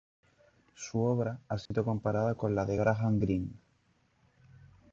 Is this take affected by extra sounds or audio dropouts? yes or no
yes